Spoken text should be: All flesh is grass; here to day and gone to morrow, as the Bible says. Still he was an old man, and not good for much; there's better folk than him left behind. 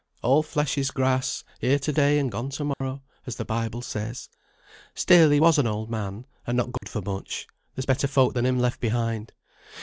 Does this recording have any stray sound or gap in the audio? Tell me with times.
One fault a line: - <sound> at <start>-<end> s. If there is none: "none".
- dropout at 2.7-2.8 s
- dropout at 6.8-6.8 s